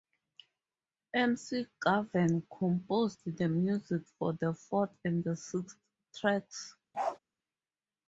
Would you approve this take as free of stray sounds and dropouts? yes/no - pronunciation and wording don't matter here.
no